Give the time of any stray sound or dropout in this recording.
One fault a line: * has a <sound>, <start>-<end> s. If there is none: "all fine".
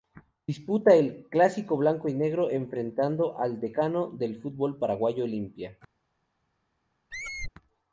* has a squeak, 7.1-7.5 s